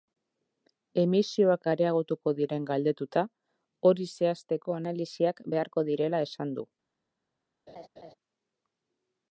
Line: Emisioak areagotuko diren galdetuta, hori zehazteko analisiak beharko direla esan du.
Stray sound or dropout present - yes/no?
yes